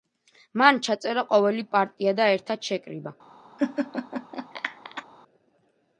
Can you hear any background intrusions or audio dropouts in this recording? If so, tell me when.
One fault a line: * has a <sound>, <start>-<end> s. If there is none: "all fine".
* has a laugh, 3.6-5.0 s